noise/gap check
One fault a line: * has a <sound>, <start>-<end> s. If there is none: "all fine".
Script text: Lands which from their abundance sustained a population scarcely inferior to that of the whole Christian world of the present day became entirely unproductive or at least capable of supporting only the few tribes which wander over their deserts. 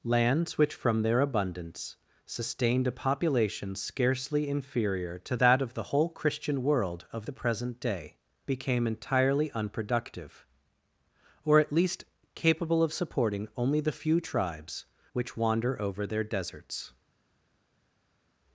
all fine